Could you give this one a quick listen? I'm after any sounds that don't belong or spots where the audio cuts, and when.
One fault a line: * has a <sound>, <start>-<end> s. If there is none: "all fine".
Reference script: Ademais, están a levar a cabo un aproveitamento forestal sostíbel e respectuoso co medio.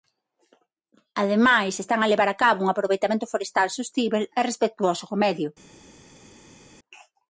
all fine